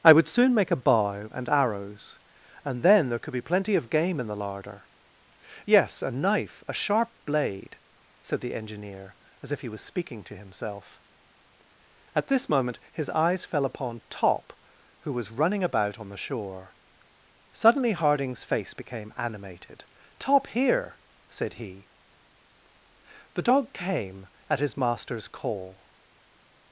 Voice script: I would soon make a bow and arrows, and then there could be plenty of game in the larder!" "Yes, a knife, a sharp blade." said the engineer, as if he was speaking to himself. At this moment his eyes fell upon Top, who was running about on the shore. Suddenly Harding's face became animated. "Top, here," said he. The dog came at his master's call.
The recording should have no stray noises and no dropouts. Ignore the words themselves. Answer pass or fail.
pass